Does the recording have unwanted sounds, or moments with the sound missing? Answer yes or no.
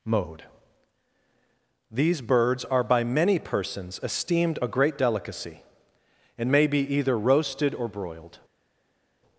no